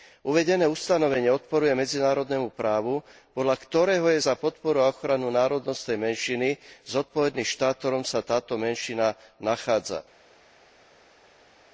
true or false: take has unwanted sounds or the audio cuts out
false